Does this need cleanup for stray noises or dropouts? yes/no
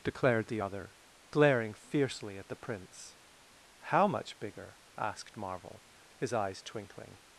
no